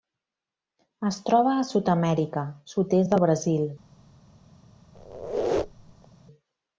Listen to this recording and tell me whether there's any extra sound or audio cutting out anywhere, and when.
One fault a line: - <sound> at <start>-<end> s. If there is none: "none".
- squeak at 4.9-6.1 s